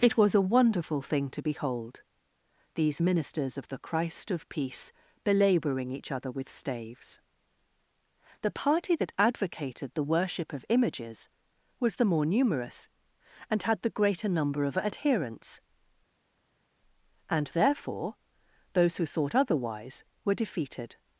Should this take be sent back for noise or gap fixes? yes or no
no